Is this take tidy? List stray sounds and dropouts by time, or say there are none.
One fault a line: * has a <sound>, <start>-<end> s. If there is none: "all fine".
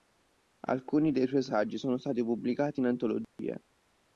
* has a dropout, 3.2-3.4 s